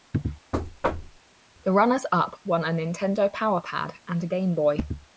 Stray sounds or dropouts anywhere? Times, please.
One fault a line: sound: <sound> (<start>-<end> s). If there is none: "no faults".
sound: thud (0.5-1.2 s)